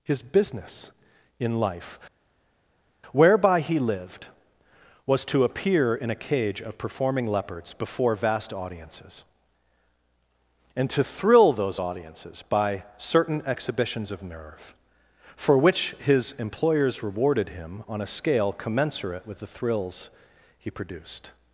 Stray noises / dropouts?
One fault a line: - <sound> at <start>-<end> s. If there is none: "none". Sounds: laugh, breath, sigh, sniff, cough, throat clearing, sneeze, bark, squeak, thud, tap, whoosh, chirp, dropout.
none